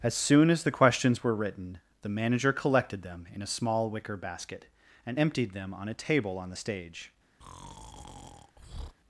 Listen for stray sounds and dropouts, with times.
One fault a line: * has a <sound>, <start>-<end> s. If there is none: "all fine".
* has a breath, 7.4-9.0 s